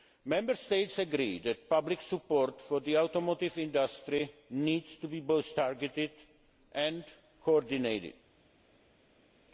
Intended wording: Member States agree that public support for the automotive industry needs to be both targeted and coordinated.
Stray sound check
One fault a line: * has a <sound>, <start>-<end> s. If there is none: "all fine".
all fine